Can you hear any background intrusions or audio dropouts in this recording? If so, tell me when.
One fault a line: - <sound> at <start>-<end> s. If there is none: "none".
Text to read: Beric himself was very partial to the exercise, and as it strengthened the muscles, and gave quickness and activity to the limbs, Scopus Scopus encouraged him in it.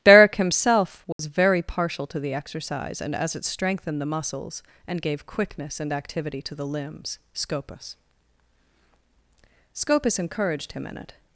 - dropout at 1.1-1.2 s